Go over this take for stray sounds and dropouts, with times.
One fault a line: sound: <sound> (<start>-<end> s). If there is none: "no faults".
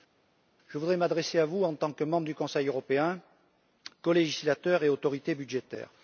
no faults